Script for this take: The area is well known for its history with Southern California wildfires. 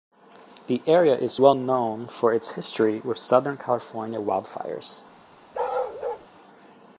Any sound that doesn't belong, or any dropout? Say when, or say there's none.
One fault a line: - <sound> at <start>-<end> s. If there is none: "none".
- bark at 5.5-6.3 s